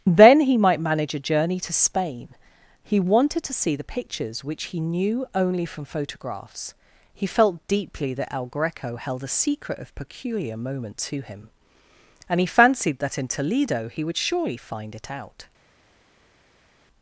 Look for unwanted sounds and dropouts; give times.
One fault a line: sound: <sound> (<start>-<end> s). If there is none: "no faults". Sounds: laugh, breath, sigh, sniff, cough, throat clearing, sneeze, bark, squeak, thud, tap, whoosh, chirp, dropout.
no faults